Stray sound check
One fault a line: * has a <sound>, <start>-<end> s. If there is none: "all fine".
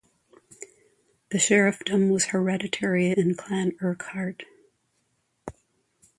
all fine